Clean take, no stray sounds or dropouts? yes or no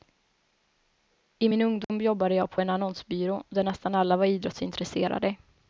no